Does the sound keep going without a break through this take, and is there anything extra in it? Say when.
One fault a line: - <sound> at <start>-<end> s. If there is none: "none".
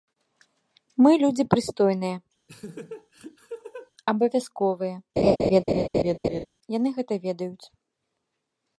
- laugh at 2.5-3.9 s
- laugh at 5.2-6.5 s